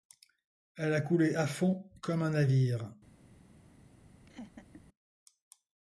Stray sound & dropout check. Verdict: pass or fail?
fail